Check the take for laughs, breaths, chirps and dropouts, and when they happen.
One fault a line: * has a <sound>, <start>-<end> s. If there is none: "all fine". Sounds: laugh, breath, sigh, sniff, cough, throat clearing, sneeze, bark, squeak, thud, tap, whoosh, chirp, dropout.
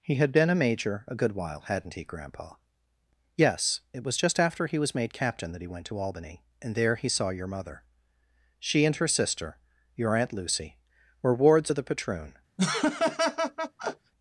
* has a laugh, 12.6-14.1 s